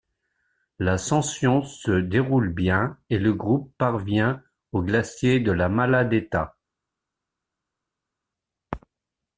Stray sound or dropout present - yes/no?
no